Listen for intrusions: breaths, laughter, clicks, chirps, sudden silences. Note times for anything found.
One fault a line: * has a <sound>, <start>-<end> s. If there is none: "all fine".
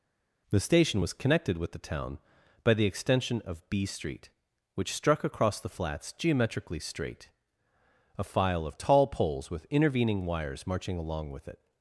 all fine